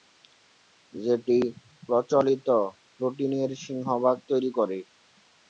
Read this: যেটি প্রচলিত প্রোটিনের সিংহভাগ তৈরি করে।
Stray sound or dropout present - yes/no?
no